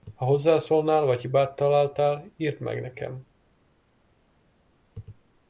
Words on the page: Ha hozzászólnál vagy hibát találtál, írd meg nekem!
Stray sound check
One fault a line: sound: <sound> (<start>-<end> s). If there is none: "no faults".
no faults